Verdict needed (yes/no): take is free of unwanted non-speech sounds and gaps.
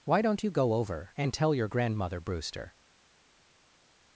yes